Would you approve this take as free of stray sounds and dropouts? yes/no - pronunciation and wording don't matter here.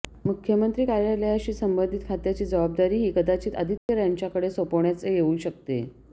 no